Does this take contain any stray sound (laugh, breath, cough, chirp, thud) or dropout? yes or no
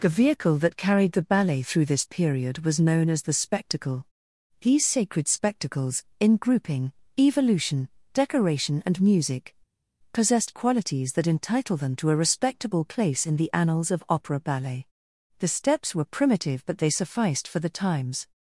no